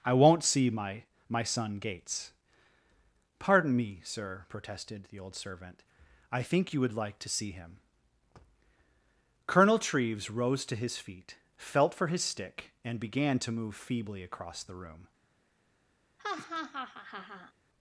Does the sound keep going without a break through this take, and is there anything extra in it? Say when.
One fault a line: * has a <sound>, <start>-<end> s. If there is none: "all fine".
* has a laugh, 16.2-17.5 s